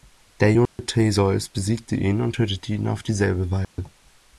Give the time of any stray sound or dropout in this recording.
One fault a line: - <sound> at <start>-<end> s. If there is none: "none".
- dropout at 0.7-0.8 s
- dropout at 3.6-3.8 s